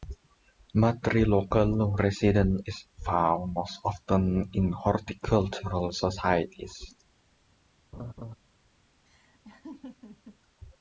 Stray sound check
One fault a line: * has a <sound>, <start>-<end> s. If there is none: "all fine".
* has a laugh, 7.9-8.4 s
* has a laugh, 9.1-10.4 s